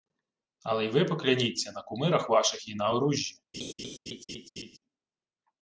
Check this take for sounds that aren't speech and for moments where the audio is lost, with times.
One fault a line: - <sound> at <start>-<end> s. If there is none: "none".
- laugh at 3.5-4.8 s